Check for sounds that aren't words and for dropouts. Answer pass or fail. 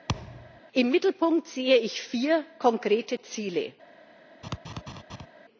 fail